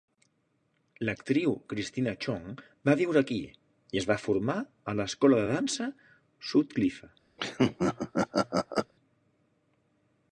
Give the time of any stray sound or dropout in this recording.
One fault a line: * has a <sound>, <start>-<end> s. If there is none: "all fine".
* has a laugh, 7.4-8.9 s